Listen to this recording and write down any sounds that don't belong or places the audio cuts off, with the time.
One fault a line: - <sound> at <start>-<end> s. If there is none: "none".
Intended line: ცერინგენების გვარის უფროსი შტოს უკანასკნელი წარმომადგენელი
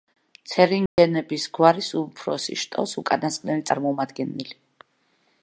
- dropout at 0.9-1.0 s